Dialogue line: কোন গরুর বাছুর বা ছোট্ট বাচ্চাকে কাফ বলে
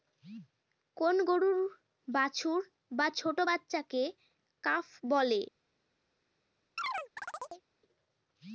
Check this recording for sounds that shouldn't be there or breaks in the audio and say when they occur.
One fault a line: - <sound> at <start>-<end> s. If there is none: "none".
- chirp at 6.8-7.7 s